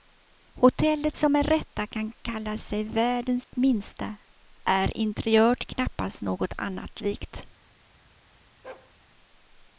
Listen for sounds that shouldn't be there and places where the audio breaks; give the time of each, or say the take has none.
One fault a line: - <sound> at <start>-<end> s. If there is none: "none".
- dropout at 3.4-3.5 s
- bark at 8.6-8.9 s